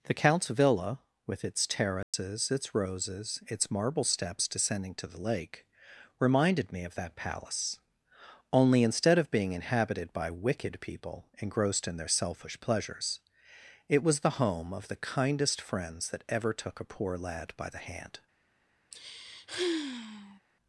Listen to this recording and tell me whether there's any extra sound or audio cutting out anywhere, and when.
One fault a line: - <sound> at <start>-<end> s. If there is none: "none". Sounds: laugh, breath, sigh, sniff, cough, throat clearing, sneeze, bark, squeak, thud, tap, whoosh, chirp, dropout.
- dropout at 2.0-2.1 s
- sigh at 18.9-20.4 s